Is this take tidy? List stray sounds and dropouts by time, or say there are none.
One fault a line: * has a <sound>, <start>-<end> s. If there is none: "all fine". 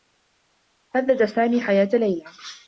all fine